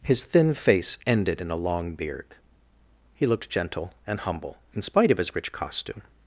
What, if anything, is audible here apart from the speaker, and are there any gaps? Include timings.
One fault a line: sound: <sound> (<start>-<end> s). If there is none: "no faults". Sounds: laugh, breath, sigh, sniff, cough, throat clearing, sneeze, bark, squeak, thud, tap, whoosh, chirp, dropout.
no faults